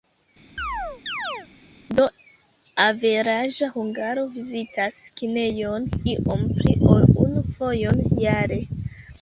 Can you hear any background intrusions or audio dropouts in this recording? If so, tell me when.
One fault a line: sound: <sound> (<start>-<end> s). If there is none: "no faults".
sound: chirp (0.6-1.5 s)